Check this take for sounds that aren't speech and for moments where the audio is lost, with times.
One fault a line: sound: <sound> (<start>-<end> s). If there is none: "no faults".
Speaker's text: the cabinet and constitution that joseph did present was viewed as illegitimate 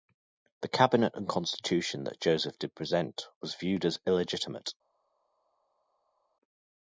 no faults